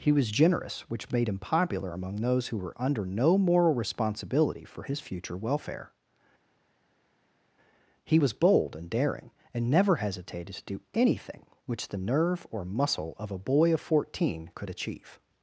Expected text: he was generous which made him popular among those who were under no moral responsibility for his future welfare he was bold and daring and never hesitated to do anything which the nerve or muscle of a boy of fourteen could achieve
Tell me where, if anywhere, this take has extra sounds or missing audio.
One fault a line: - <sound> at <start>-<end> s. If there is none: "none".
none